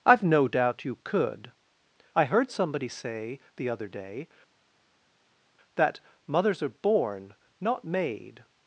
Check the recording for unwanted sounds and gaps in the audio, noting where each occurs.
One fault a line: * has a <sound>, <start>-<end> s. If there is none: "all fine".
all fine